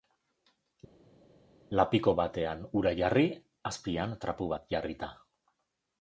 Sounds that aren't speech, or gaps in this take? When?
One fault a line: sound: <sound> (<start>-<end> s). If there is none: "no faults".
no faults